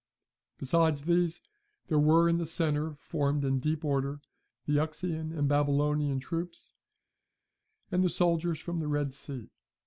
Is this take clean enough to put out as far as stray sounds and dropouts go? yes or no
yes